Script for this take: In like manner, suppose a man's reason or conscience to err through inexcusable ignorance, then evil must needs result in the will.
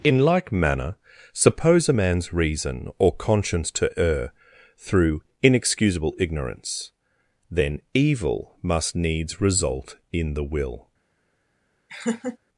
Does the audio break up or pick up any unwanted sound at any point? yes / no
yes